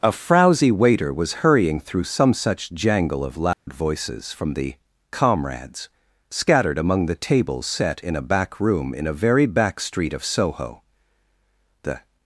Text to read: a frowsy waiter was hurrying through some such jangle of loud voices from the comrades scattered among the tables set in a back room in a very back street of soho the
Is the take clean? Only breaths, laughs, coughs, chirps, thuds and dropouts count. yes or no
no